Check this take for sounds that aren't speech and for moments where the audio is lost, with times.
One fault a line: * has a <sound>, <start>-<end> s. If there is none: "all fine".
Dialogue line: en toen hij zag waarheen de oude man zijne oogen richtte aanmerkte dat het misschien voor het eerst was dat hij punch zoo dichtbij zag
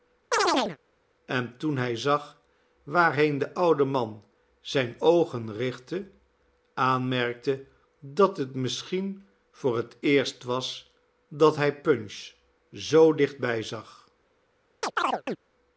* has a chirp, 0.3-0.8 s
* has a chirp, 14.8-15.4 s